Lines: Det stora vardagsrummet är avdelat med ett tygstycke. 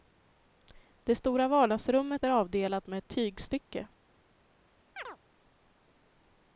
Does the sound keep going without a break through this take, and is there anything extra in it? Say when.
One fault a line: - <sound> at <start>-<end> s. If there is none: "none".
- chirp at 5.0-5.2 s